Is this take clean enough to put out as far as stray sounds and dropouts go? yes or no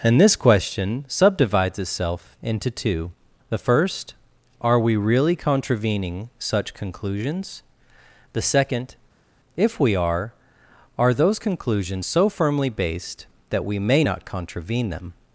yes